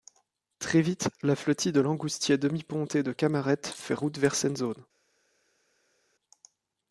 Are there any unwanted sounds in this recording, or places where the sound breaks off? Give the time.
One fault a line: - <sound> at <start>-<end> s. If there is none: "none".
none